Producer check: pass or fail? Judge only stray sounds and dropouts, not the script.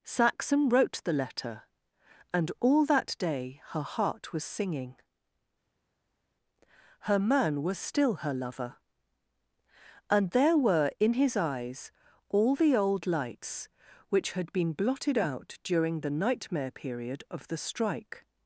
pass